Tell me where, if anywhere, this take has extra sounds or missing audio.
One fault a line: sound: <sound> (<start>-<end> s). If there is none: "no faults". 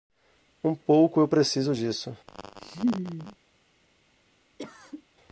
sound: laugh (2.3-3.4 s)
sound: cough (4.6-5.1 s)